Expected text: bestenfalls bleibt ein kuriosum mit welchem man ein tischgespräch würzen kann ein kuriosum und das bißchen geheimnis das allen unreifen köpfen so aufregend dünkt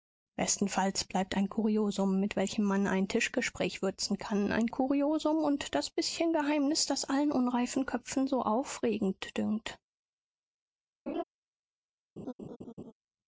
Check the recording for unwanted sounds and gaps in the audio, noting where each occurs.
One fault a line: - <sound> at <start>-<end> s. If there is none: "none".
- laugh at 11.1-11.2 s
- laugh at 12.2-12.9 s